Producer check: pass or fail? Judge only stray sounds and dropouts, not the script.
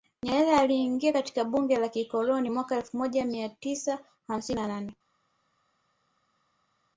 pass